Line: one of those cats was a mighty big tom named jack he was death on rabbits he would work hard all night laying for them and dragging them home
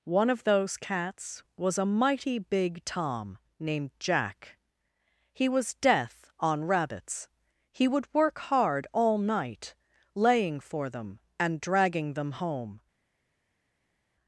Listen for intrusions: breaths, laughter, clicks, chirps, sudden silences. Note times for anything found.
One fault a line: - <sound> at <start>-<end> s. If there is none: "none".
none